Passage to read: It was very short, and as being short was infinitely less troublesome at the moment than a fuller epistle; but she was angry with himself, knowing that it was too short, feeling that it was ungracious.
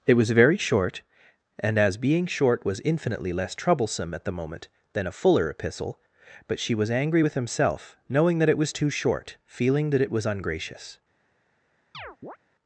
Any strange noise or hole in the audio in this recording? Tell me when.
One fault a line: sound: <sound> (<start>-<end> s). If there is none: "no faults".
sound: chirp (11.9-12.4 s)